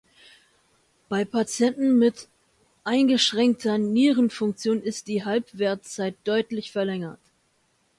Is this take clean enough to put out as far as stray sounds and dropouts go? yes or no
yes